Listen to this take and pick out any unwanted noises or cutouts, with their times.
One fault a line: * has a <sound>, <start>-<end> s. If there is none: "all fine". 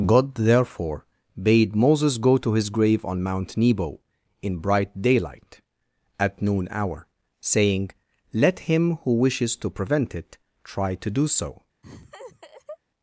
* has a laugh, 11.8-12.8 s